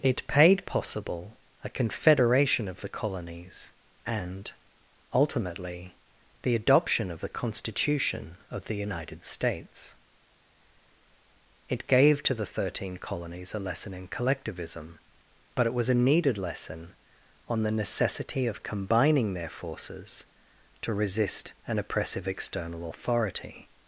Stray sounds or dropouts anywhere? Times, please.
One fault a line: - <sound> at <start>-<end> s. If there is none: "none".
none